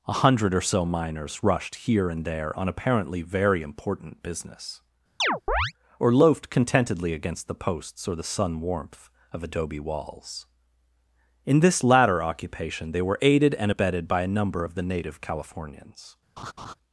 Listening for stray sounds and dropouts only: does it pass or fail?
fail